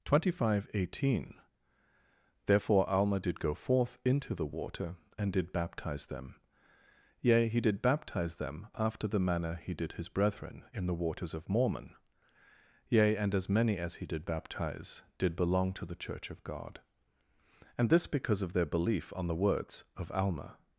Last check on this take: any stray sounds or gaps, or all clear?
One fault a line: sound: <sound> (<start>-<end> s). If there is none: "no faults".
no faults